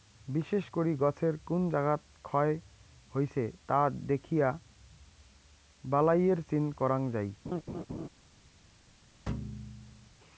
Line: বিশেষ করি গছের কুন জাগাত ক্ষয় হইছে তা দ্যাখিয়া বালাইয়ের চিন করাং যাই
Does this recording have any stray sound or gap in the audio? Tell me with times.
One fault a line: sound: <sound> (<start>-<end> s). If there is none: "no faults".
sound: laugh (7.5-8.1 s)
sound: thud (9.3-10.1 s)